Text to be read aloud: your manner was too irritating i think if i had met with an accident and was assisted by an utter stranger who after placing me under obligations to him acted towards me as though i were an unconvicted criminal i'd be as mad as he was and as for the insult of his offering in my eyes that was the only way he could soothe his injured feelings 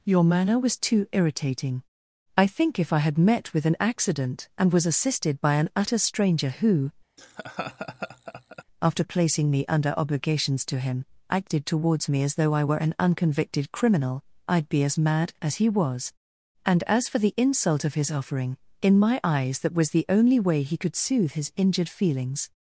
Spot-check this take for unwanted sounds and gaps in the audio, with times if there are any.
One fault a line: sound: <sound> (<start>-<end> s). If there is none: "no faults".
sound: laugh (7.2-8.6 s)